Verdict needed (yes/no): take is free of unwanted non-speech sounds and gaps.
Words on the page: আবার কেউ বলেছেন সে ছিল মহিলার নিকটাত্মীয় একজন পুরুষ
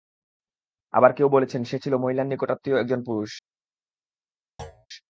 no